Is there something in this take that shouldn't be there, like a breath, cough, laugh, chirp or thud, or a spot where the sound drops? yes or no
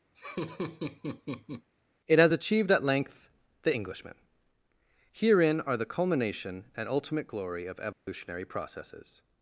yes